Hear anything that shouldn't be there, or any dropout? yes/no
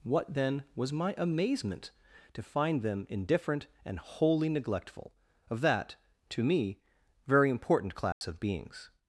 yes